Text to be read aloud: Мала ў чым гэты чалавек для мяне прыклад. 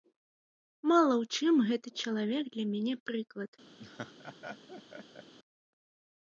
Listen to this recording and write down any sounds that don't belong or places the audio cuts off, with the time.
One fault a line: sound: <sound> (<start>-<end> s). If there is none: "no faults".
sound: laugh (3.8-5.3 s)